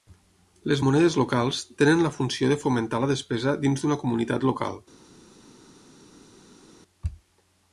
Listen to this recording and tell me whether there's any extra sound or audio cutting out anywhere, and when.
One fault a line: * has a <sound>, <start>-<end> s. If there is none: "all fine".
all fine